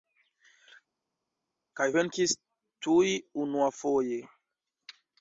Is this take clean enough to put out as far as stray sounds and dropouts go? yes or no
yes